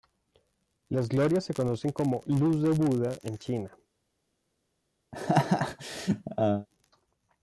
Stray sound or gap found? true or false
true